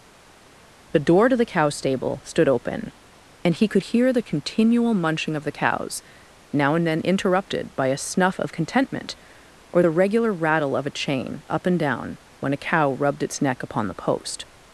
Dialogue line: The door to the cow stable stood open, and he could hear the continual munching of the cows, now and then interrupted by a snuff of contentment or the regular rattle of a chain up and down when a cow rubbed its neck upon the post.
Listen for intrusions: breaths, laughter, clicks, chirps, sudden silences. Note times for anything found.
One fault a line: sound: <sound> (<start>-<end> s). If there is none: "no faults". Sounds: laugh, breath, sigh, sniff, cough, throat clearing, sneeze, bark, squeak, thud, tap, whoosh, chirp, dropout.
no faults